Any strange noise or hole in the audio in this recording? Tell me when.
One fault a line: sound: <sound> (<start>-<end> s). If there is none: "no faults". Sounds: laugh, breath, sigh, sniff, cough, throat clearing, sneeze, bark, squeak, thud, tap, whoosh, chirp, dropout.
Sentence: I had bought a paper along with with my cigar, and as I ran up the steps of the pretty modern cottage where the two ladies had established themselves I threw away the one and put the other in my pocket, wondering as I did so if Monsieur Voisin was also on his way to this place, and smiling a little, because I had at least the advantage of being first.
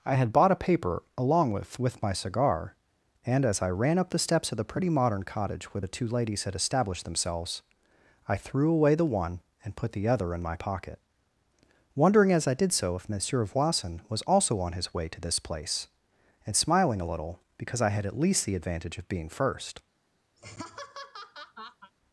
sound: laugh (20.4-21.9 s)